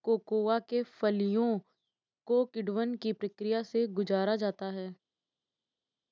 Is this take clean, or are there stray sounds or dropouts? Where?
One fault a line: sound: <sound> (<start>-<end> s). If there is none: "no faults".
no faults